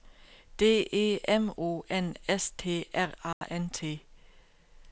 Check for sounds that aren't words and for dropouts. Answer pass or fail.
fail